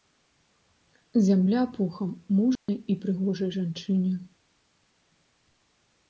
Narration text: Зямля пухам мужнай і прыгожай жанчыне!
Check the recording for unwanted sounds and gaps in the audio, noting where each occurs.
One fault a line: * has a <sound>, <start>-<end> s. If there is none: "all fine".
* has a dropout, 2.6-2.7 s